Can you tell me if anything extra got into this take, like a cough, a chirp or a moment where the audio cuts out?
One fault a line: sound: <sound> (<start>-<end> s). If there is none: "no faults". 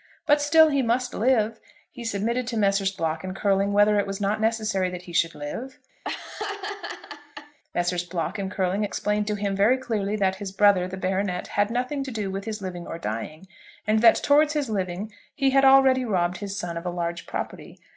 sound: laugh (6.0-7.6 s)